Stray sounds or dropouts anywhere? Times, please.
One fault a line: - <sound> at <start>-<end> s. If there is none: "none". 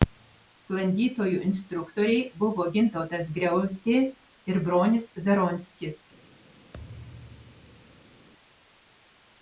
- thud at 6.7-8.3 s